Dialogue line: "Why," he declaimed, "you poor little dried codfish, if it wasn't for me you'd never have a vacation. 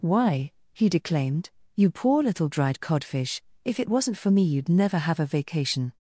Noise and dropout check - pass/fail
pass